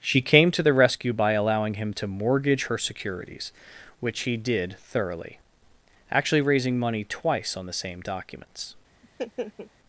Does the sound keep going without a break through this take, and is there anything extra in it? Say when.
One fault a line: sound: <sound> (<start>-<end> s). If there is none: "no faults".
sound: laugh (9.0-9.7 s)